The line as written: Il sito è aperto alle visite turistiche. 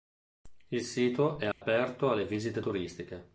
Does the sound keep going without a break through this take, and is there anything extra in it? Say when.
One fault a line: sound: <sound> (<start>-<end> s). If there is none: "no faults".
sound: dropout (1.5-1.6 s)